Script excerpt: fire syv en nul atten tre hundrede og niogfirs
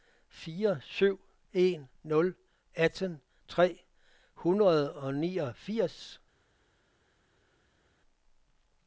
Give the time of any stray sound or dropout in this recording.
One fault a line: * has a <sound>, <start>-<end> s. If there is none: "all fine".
all fine